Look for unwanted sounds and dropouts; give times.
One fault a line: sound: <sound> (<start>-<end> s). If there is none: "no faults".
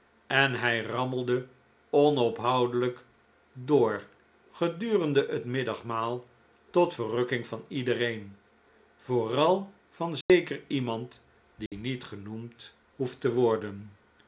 sound: dropout (10.2-10.3 s)
sound: dropout (11.7-11.7 s)